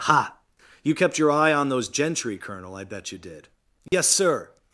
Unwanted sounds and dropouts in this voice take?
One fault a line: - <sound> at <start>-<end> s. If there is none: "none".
- dropout at 3.9-3.9 s